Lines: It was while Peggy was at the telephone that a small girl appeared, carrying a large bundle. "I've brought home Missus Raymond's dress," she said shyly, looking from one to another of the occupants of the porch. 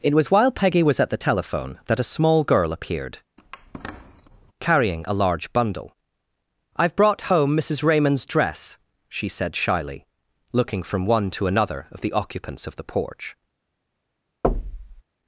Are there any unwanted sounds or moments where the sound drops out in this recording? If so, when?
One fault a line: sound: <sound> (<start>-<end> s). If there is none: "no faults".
sound: squeak (3.4-4.5 s)
sound: thud (14.4-15.0 s)